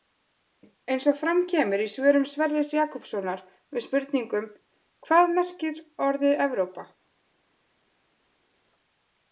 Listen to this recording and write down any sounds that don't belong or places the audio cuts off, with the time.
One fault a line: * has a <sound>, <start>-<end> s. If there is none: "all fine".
all fine